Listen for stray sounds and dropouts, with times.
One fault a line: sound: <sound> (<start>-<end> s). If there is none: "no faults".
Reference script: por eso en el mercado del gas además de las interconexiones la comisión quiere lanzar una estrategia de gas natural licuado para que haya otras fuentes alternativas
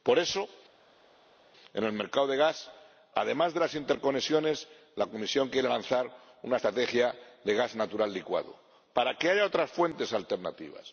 no faults